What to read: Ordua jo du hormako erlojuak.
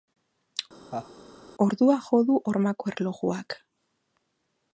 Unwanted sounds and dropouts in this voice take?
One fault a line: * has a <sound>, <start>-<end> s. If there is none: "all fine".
* has a laugh, 0.9-1.1 s